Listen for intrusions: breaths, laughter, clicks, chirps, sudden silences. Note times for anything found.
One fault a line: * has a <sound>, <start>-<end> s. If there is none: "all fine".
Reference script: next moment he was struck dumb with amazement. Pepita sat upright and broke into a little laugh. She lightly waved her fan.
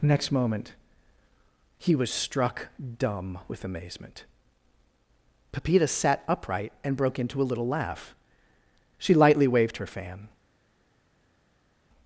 all fine